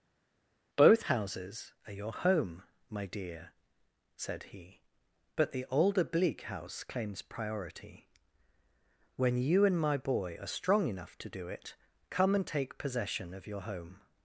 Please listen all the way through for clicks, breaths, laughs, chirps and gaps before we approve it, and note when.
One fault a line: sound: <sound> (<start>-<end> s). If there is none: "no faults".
no faults